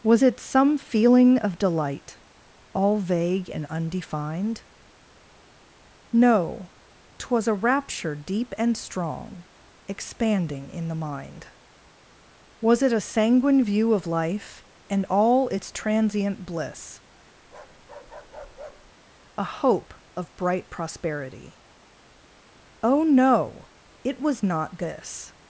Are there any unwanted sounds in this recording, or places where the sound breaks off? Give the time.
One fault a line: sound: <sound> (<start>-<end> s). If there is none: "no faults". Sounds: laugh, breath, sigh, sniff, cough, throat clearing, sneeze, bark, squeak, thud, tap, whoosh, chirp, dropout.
sound: bark (17.4-18.9 s)